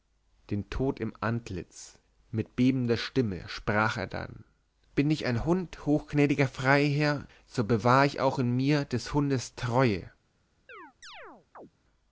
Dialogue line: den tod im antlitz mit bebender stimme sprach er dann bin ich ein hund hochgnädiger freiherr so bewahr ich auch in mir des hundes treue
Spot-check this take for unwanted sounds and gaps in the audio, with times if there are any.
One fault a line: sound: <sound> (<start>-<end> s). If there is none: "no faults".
sound: chirp (10.7-11.7 s)